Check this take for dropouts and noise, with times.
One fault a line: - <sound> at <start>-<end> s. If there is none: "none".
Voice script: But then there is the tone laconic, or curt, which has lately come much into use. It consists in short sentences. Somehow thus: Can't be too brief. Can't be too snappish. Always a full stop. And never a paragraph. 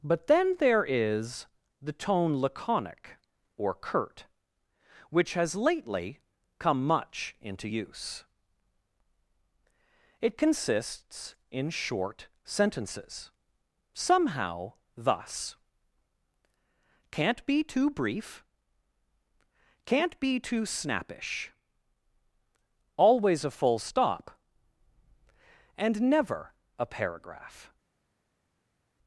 none